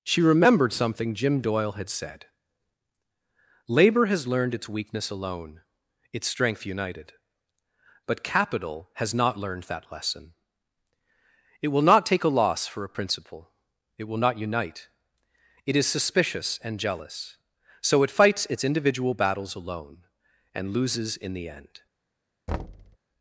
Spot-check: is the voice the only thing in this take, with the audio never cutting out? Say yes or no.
no